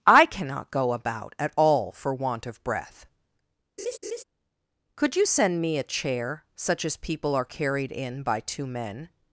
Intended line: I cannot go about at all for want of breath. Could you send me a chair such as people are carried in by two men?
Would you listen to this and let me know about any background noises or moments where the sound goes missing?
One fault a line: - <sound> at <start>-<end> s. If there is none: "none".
- laugh at 3.8-4.2 s